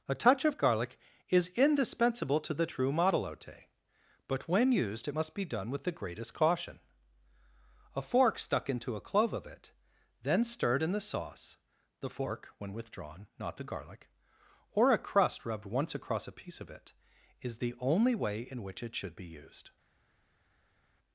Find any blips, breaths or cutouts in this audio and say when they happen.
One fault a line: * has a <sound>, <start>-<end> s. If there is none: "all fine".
all fine